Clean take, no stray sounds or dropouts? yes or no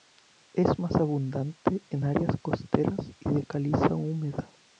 yes